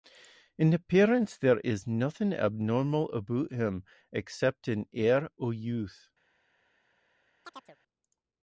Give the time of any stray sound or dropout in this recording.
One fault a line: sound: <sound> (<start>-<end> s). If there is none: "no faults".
sound: chirp (7.4-7.8 s)